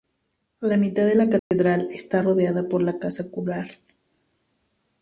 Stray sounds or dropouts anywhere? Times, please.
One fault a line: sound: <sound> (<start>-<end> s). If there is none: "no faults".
sound: dropout (1.4-1.5 s)